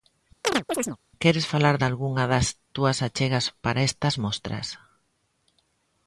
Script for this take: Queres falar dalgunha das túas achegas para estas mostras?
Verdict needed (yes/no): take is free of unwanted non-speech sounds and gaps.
no